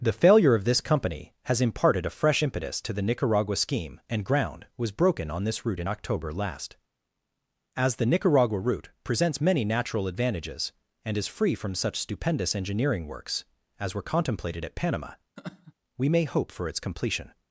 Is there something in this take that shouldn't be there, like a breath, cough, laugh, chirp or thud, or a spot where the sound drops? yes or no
yes